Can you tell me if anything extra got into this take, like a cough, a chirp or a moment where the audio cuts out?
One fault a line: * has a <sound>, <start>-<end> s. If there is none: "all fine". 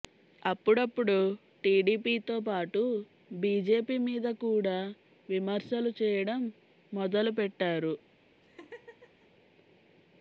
* has a laugh, 8.4-9.3 s